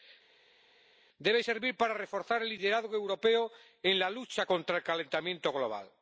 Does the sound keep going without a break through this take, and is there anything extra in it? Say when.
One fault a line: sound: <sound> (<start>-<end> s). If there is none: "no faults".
no faults